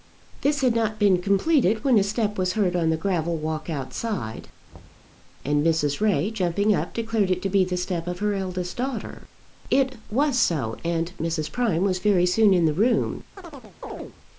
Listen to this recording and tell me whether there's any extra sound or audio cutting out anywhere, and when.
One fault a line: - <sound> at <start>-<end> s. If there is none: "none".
- thud at 4.7-5.1 s
- chirp at 13.4-14.2 s